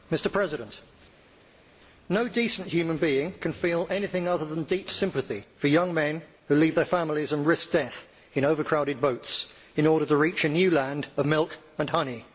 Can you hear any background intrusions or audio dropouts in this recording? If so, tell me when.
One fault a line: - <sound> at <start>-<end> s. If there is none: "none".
none